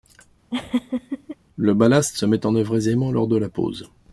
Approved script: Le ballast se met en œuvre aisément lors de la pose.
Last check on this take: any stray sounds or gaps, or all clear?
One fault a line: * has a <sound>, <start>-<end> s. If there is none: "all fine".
* has a laugh, 0.5-1.4 s